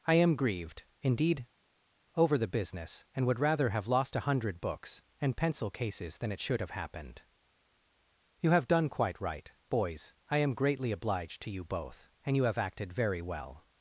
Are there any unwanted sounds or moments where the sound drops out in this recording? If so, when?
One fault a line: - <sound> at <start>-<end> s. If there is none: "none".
none